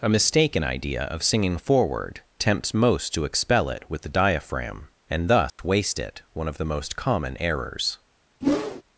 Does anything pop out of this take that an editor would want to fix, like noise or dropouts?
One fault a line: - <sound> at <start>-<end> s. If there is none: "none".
- dropout at 5.5-5.6 s
- whoosh at 8.4-8.8 s